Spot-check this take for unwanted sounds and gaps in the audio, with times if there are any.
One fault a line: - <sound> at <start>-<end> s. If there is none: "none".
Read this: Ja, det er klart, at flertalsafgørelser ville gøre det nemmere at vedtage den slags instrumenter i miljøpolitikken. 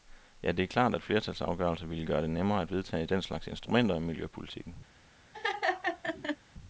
- laugh at 5.3-6.4 s